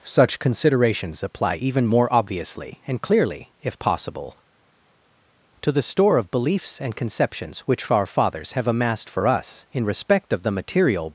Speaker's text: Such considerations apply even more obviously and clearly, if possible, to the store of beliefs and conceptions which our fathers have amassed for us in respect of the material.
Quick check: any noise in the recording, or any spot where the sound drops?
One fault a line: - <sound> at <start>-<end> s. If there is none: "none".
none